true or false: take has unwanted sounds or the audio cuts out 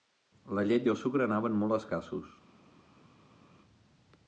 false